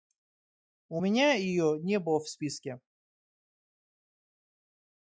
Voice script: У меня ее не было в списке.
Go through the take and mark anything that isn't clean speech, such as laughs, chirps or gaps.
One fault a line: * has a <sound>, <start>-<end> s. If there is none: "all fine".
all fine